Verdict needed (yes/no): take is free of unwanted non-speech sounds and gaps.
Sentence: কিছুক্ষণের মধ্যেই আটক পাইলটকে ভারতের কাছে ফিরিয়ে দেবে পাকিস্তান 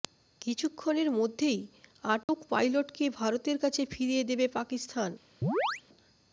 no